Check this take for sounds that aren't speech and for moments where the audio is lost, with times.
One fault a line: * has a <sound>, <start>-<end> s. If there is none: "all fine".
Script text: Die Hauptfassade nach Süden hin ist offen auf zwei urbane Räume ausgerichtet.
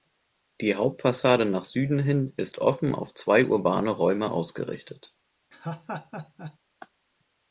* has a laugh, 5.5-6.6 s